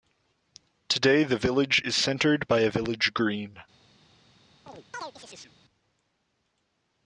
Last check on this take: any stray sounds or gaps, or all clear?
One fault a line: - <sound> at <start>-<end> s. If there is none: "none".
- chirp at 4.7-5.5 s